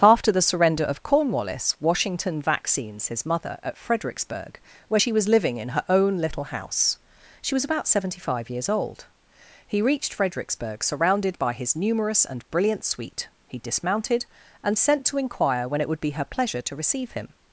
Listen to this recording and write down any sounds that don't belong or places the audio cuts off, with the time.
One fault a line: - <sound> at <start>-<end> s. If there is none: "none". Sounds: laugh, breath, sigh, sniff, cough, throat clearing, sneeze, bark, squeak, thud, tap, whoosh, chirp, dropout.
none